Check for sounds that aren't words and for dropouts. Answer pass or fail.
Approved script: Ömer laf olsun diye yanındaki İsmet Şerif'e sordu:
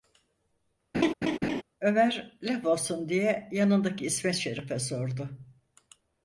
fail